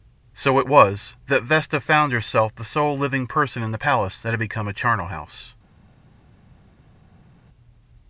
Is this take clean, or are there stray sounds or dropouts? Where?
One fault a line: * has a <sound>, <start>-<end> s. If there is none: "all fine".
all fine